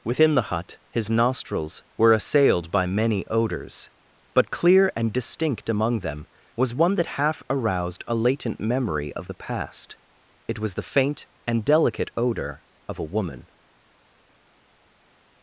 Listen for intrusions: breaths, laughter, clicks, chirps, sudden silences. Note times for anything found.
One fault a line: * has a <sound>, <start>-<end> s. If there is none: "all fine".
all fine